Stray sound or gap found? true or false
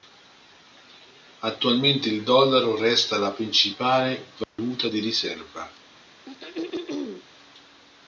true